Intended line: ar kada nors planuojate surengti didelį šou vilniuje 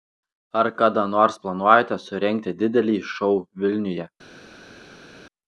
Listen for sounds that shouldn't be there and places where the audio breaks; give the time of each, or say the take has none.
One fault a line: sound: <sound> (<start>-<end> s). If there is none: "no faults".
no faults